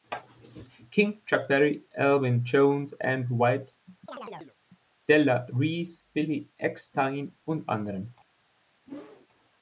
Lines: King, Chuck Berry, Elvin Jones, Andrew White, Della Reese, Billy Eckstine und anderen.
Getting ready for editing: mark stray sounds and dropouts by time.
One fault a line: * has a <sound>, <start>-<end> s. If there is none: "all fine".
* has a chirp, 4.1-4.6 s
* has a whoosh, 8.9-9.3 s